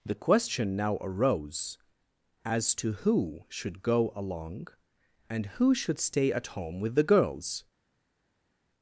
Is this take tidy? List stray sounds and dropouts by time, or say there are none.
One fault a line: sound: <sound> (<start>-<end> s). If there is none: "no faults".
no faults